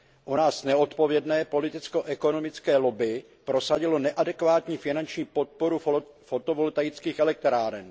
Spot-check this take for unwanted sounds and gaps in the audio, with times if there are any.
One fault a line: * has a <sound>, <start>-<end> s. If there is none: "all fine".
all fine